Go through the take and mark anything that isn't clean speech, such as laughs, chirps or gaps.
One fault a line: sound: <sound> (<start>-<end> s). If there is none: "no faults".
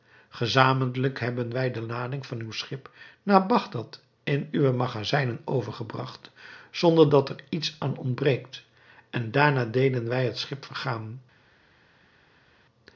no faults